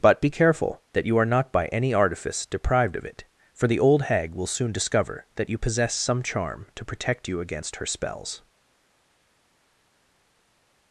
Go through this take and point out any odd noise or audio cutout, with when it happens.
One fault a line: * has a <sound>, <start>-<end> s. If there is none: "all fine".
all fine